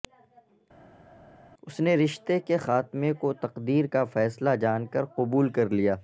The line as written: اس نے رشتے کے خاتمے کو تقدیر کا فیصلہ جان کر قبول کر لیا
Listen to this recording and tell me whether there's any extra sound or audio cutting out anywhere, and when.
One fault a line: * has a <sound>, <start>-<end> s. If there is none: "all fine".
all fine